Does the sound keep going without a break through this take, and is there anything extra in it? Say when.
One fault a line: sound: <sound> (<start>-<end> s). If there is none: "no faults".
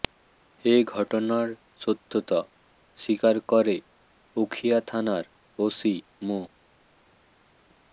no faults